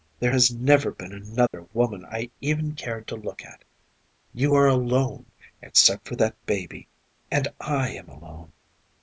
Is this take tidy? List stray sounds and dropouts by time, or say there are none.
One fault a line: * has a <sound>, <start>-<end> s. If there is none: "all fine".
* has a dropout, 1.5-1.5 s